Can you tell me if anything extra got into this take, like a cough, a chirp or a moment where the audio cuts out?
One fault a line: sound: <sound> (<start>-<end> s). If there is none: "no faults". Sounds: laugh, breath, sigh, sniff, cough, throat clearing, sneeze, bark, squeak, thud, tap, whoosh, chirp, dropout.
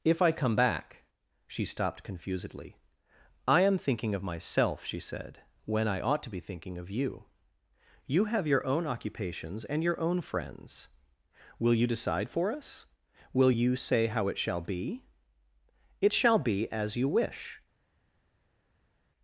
no faults